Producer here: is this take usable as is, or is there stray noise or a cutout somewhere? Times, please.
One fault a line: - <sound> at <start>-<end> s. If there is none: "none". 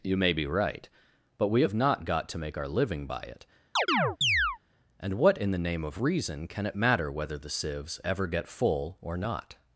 - chirp at 3.8-4.6 s